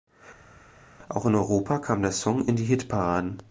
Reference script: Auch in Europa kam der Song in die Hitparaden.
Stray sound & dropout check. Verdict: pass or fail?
pass